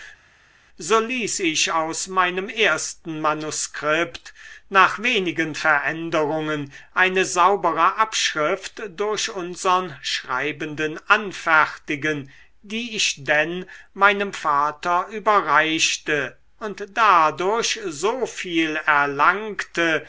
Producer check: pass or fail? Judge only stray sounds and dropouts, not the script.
pass